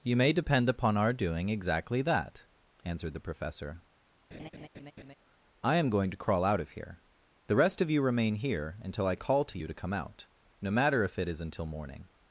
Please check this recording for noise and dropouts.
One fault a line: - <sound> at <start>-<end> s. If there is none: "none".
- laugh at 4.3-5.1 s